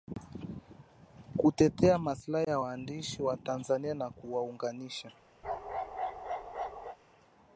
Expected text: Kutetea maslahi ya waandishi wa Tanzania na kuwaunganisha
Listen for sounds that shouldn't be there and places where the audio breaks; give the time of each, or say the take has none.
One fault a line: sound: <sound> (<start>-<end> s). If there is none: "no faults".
sound: bark (5.4-7.0 s)